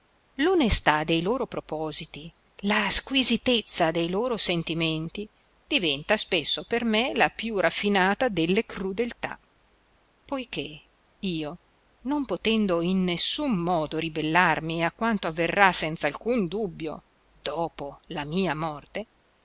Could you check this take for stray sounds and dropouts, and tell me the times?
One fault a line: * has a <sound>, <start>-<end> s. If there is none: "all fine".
all fine